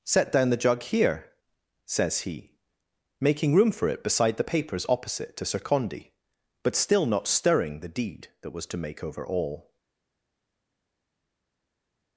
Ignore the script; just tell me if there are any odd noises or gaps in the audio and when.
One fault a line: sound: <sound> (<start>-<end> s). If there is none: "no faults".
no faults